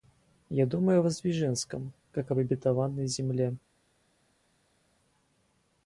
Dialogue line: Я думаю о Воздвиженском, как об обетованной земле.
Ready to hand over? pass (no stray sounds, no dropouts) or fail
pass